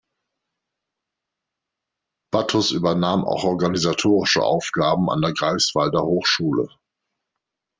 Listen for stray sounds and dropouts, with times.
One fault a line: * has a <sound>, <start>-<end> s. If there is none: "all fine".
all fine